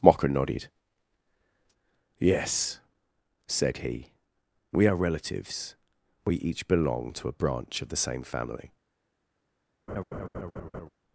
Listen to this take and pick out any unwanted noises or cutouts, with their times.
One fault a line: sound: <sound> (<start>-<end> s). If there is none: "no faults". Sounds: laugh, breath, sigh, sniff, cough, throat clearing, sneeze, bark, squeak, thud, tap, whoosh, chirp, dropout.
sound: laugh (9.9-10.9 s)